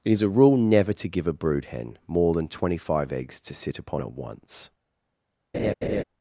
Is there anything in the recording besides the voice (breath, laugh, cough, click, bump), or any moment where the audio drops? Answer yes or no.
yes